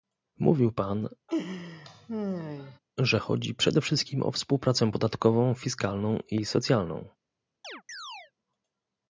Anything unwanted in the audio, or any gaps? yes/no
yes